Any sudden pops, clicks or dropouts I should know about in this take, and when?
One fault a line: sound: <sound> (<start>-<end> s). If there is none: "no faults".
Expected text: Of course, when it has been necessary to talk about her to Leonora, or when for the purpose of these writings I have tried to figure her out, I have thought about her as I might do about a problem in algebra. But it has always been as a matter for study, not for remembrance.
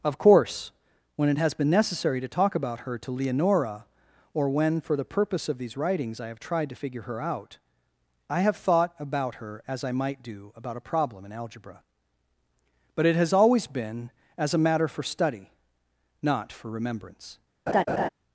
sound: laugh (17.7-18.1 s)